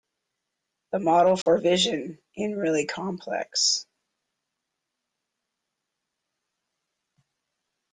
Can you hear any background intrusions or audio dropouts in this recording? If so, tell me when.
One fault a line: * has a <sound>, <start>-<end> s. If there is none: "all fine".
* has a dropout, 1.4-1.5 s